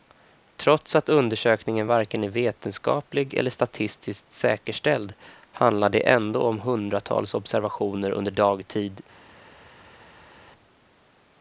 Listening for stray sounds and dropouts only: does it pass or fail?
pass